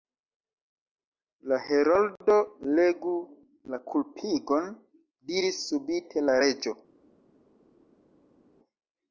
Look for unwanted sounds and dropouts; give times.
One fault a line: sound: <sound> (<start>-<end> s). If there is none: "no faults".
no faults